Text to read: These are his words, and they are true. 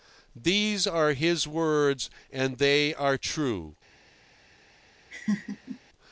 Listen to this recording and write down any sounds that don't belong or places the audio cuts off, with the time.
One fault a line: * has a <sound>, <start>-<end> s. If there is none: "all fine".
* has a laugh, 5.1-5.8 s